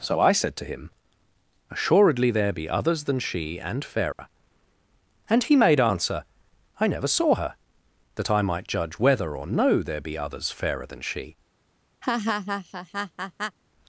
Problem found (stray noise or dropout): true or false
true